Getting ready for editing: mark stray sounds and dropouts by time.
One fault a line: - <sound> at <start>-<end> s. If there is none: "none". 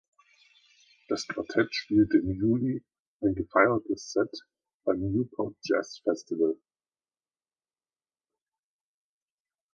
none